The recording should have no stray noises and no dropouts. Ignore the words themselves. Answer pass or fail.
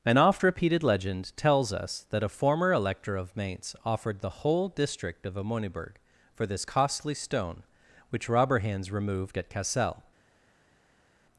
pass